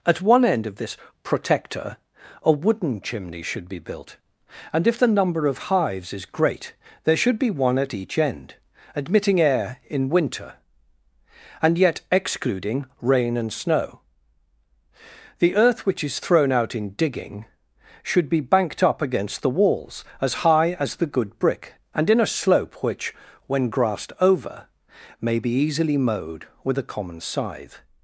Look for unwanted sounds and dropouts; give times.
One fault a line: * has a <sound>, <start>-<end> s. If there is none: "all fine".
all fine